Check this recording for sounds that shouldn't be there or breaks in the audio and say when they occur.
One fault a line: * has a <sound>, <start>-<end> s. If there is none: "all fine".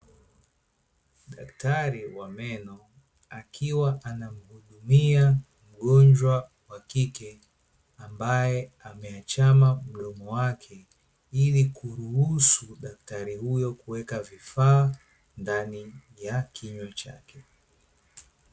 all fine